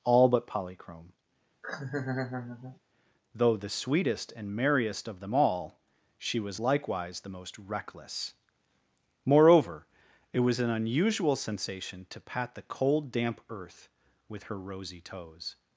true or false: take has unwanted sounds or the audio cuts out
true